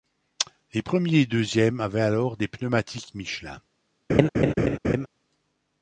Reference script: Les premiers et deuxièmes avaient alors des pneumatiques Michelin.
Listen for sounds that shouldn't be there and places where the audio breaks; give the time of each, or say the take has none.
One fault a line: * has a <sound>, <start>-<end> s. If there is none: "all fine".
* has a laugh, 4.1-5.1 s